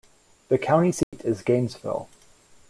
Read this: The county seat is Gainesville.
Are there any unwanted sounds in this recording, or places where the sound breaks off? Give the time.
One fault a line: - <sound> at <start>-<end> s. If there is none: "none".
- dropout at 1.0-1.1 s